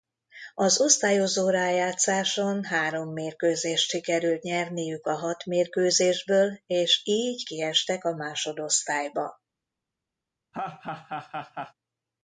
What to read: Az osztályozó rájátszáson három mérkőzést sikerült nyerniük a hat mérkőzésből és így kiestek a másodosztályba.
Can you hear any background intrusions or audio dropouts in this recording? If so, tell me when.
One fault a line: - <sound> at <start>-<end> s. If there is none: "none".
- laugh at 10.5-11.7 s